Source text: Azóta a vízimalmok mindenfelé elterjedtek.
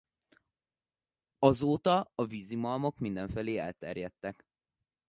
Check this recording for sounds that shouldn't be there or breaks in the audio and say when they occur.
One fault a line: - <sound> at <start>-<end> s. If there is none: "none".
none